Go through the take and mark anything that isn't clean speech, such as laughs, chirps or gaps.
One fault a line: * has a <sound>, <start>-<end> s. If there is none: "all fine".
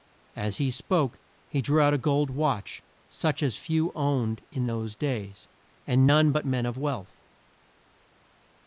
all fine